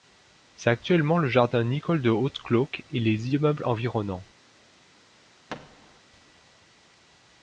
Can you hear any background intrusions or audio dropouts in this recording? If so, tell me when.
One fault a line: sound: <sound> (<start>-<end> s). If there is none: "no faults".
sound: thud (5.5-6.0 s)